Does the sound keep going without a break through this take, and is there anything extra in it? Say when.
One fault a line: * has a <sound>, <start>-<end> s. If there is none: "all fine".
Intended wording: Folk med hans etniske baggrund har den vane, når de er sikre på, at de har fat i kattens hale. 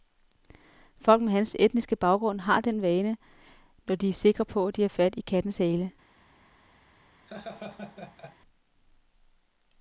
* has a laugh, 7.3-8.4 s